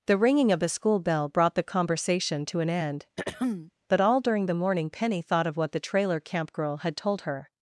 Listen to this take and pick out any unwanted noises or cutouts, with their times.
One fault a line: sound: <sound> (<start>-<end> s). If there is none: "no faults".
sound: throat clearing (3.2-3.7 s)